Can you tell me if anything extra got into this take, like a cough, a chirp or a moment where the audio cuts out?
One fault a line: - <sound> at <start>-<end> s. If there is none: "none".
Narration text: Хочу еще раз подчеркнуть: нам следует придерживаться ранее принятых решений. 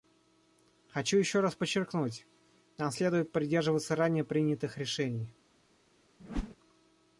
- whoosh at 6.2-6.6 s